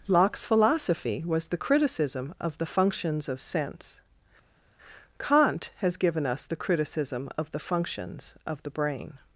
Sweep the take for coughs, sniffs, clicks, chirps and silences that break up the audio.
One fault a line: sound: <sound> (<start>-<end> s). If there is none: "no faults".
no faults